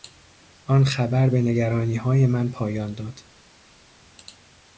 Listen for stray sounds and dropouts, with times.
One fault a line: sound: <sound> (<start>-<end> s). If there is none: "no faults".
no faults